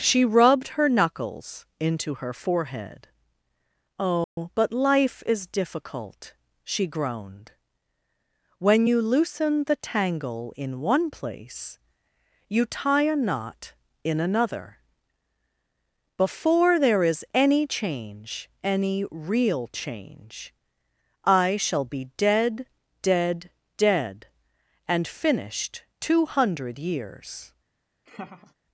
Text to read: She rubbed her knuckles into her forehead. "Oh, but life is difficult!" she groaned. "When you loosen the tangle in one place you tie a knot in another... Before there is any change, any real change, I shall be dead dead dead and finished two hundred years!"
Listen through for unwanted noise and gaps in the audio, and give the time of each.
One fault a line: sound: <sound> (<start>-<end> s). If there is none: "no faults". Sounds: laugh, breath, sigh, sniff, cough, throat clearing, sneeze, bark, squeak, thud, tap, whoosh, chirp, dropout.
sound: dropout (4.2-4.4 s)
sound: laugh (28.1-28.5 s)